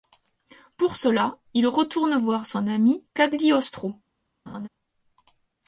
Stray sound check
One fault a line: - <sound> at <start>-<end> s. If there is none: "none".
- laugh at 4.5-4.7 s